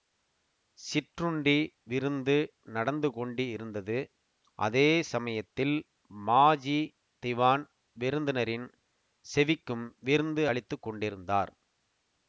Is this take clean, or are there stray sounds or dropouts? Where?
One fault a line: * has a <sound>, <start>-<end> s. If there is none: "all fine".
all fine